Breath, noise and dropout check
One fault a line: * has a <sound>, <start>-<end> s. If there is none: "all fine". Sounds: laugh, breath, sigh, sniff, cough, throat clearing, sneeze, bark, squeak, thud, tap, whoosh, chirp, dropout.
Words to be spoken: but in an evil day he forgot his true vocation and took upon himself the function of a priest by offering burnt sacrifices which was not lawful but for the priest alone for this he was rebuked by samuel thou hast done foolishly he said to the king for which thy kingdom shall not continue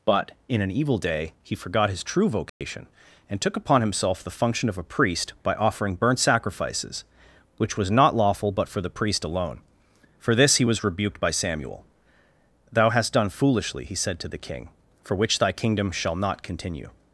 * has a dropout, 2.5-2.6 s